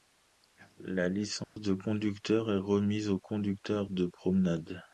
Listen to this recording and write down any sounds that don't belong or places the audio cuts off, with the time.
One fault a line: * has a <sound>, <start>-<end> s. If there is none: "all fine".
* has a dropout, 1.4-1.6 s